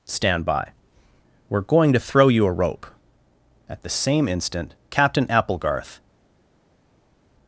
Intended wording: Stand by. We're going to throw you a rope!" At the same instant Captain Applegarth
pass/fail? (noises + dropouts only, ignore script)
pass